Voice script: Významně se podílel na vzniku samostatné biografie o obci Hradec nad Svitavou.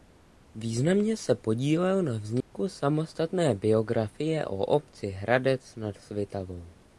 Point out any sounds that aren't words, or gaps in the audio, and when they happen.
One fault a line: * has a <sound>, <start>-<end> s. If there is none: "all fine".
* has a dropout, 2.4-2.5 s